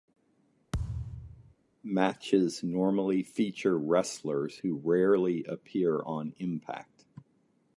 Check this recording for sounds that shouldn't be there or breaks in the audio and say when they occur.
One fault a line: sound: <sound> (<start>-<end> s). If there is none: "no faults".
sound: thud (0.7-1.5 s)